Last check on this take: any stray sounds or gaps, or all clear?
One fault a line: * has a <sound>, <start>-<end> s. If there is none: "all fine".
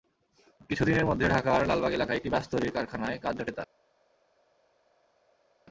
all fine